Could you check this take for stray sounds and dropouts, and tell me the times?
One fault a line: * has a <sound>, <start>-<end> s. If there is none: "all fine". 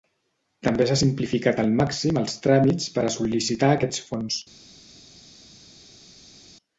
all fine